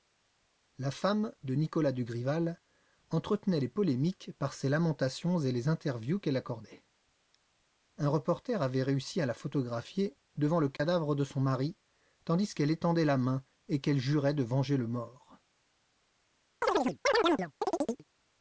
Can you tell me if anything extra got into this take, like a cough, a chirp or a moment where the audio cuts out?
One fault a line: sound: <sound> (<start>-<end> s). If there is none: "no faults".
sound: dropout (10.8-10.8 s)
sound: chirp (16.6-18.0 s)